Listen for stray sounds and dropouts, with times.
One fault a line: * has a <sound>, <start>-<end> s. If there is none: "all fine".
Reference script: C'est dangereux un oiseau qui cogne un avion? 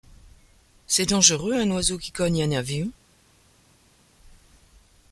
all fine